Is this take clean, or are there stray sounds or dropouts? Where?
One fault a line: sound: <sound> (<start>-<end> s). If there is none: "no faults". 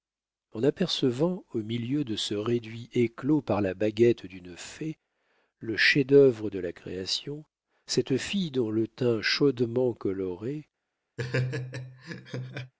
sound: laugh (11.2-12.7 s)